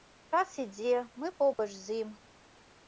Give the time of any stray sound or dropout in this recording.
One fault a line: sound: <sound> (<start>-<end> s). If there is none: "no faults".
sound: dropout (1.5-1.6 s)